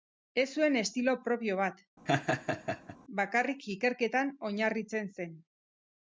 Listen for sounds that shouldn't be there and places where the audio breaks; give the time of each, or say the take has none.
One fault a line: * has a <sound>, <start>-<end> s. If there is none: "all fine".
* has a laugh, 2.1-3.0 s